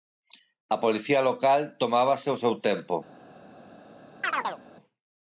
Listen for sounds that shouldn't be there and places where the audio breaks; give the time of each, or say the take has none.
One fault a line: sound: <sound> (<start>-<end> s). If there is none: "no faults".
sound: chirp (4.2-4.6 s)